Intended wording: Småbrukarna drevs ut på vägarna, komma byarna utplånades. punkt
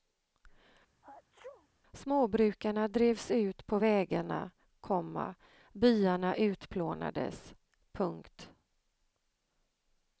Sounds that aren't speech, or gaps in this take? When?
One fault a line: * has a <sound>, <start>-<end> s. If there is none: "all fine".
* has a sneeze, 1.0-1.7 s